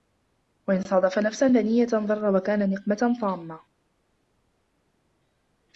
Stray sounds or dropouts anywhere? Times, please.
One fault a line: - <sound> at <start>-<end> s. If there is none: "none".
none